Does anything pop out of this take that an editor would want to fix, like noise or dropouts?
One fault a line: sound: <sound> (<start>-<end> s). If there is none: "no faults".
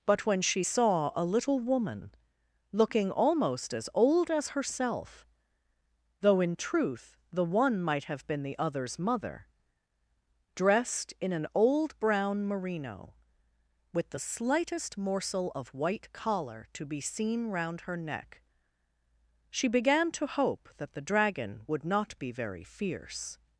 no faults